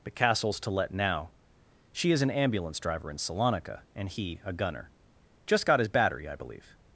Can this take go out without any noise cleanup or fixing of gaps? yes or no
yes